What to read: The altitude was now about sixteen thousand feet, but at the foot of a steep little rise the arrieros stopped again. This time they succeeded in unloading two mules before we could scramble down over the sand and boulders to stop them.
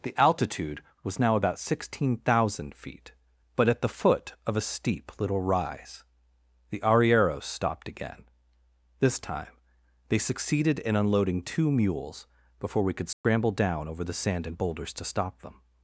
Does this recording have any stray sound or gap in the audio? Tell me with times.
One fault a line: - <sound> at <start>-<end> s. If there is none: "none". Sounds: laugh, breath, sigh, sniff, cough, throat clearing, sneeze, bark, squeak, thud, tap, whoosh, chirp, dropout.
- dropout at 13.1-13.2 s